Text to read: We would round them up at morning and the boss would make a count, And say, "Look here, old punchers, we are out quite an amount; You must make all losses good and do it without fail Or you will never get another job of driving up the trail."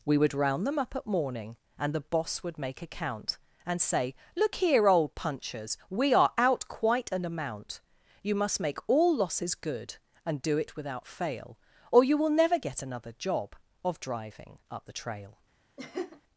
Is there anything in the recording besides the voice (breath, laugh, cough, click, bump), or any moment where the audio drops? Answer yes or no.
yes